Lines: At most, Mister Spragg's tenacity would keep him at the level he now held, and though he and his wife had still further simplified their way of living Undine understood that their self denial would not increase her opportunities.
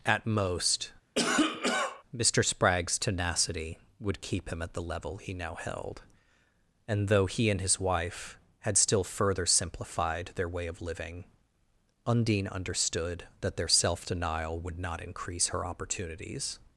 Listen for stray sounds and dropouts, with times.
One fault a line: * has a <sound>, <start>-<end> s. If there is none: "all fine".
* has a cough, 1.2-2.0 s